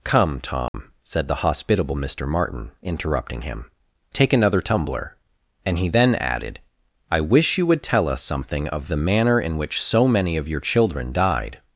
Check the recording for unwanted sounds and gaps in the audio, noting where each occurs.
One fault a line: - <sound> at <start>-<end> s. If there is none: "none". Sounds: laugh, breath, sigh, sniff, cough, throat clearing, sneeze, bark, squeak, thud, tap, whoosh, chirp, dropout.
- dropout at 0.7-0.7 s